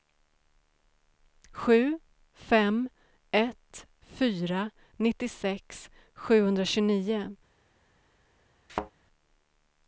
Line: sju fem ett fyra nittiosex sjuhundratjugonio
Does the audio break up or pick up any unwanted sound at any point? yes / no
yes